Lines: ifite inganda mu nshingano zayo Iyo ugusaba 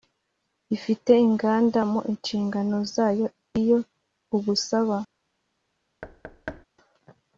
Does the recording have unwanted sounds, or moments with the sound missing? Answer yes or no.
yes